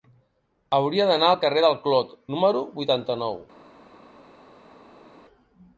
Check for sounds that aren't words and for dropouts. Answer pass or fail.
pass